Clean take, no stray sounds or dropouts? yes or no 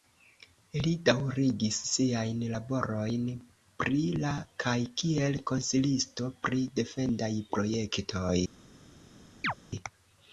no